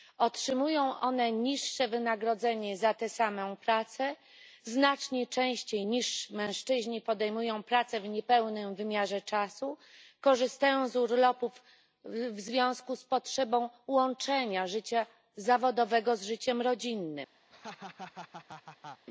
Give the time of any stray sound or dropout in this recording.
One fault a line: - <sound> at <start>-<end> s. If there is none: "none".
- laugh at 17.5-19.1 s